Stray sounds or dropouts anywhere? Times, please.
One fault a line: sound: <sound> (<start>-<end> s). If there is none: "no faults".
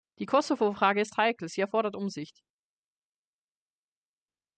no faults